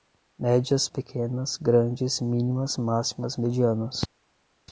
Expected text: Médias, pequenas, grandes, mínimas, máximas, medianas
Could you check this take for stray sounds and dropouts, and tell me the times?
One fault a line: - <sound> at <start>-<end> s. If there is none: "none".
none